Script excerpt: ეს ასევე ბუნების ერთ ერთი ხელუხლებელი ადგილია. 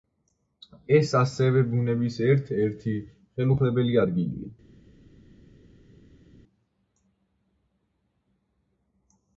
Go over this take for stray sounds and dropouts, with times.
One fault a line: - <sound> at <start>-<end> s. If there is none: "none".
none